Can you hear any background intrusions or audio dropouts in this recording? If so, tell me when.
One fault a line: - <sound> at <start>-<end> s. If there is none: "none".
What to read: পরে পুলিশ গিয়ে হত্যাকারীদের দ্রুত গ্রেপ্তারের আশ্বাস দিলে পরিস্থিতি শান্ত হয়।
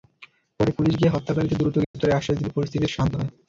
- dropout at 1.8-1.9 s